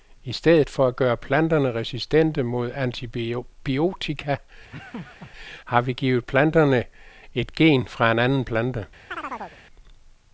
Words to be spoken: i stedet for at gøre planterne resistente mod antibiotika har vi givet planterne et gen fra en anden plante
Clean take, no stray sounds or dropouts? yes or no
no